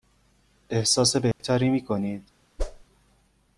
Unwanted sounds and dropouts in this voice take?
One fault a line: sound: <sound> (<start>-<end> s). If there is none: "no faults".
sound: dropout (1.3-1.4 s)
sound: whoosh (2.6-2.8 s)